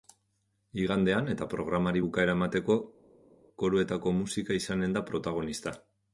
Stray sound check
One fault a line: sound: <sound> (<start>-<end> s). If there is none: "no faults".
no faults